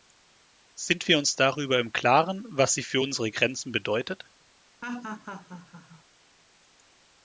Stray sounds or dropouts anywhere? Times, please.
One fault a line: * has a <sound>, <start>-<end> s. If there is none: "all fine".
* has a laugh, 4.8-6.0 s